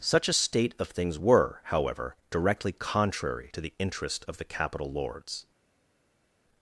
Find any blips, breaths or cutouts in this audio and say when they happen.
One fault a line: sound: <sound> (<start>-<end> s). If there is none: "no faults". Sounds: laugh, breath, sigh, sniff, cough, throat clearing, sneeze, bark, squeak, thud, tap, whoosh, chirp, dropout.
no faults